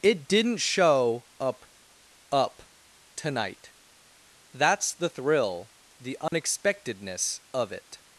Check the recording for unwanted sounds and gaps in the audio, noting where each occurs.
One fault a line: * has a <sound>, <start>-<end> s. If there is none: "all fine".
* has a dropout, 6.3-6.3 s